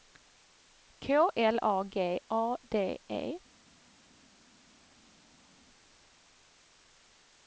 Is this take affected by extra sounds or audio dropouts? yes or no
no